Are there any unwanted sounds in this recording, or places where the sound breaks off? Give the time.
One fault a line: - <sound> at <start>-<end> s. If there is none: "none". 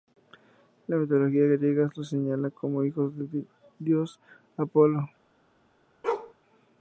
- bark at 6.0-6.3 s